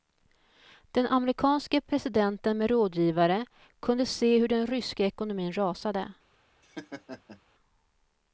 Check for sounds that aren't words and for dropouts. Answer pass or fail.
fail